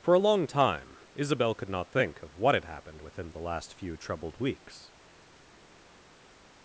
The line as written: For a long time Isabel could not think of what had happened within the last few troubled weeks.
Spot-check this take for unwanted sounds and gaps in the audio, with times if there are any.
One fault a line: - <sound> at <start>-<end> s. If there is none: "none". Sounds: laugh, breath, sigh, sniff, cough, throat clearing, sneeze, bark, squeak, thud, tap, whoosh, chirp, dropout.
none